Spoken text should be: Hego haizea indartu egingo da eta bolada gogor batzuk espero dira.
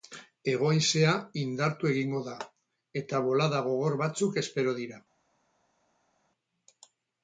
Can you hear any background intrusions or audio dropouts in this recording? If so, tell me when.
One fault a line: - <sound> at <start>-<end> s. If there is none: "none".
none